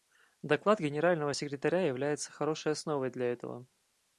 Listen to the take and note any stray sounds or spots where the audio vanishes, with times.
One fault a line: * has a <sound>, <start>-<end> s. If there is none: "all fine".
all fine